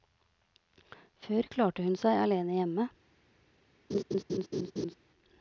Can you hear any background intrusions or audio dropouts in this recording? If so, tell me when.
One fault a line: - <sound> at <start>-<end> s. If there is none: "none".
- laugh at 3.9-5.0 s